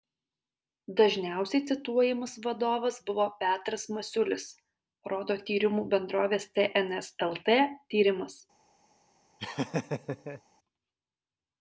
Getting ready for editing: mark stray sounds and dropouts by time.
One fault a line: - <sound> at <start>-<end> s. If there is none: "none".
- laugh at 9.4-10.4 s